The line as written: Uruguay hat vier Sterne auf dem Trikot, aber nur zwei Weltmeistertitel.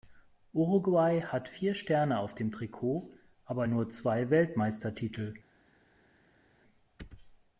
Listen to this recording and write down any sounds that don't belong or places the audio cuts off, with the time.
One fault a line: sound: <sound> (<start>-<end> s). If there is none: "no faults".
no faults